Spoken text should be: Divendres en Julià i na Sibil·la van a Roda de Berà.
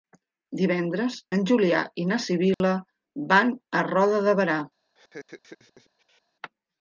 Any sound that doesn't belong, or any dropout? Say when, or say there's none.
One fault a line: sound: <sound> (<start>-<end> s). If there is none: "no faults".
sound: dropout (2.5-2.6 s)
sound: laugh (4.9-6.2 s)